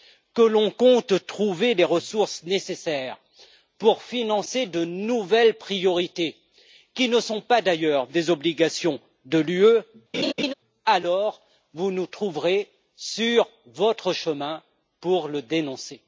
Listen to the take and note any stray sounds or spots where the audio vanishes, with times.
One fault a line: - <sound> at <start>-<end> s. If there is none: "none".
- laugh at 10.1-10.5 s